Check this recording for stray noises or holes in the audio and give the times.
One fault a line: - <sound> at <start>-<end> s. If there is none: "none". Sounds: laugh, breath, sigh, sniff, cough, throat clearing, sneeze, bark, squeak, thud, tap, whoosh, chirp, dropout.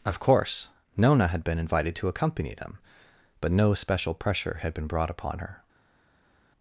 none